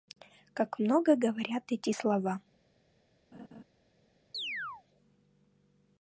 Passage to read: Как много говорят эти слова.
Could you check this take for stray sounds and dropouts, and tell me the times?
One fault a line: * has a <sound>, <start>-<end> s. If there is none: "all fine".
* has a laugh, 3.3-3.6 s
* has a chirp, 4.3-4.8 s